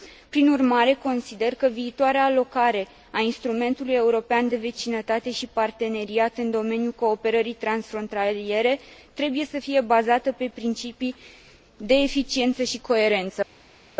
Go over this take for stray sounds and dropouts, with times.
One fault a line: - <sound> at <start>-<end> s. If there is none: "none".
none